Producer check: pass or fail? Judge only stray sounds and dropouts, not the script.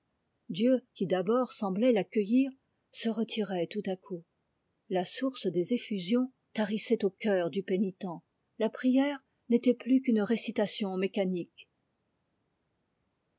pass